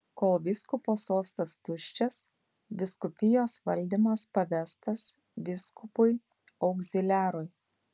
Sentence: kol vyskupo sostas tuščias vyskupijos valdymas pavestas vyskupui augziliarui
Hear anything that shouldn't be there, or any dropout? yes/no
no